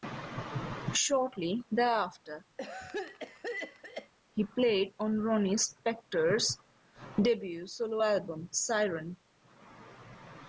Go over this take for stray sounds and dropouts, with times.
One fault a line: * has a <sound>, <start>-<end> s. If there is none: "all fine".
* has a cough, 2.6-4.1 s